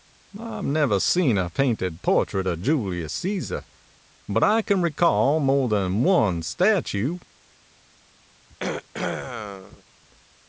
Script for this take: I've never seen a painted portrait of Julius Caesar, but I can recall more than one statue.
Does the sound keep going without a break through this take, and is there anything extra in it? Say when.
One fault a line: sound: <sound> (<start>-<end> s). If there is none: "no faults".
sound: throat clearing (8.5-9.8 s)